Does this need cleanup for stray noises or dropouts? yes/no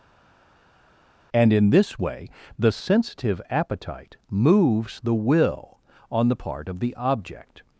no